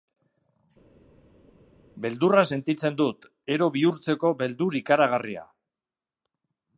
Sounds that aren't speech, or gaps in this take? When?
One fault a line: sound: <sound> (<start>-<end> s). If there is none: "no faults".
no faults